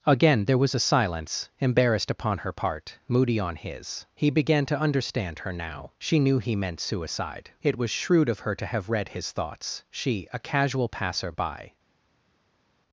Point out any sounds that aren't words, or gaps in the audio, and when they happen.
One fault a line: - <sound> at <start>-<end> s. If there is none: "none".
none